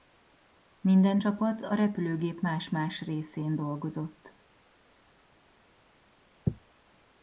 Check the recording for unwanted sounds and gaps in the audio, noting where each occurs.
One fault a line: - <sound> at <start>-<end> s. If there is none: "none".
none